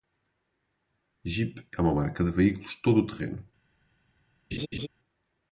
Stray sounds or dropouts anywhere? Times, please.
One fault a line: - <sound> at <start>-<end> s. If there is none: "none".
- laugh at 4.5-4.9 s